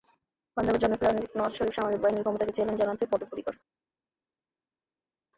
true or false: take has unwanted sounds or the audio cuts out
false